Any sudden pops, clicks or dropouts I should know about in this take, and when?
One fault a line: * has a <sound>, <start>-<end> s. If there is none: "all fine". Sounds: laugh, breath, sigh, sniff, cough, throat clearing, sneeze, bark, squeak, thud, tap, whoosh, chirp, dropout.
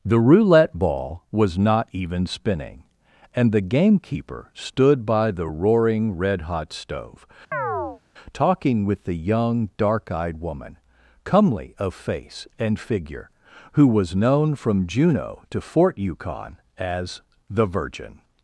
* has a chirp, 7.5-8.0 s